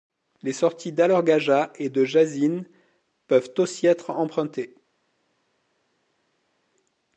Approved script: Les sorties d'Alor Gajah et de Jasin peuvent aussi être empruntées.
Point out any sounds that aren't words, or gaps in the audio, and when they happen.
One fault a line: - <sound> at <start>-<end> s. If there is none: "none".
none